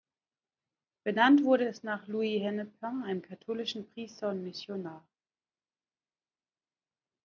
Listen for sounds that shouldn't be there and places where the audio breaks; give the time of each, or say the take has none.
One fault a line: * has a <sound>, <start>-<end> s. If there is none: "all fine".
all fine